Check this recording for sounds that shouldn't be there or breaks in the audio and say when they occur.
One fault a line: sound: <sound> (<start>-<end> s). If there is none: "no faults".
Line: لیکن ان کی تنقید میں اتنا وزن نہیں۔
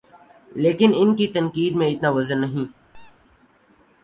sound: squeak (2.9-3.2 s)